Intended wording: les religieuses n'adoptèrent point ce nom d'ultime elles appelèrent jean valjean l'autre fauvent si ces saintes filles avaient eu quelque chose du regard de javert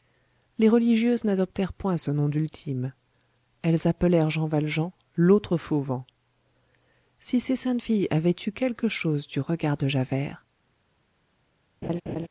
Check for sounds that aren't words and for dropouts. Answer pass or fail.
fail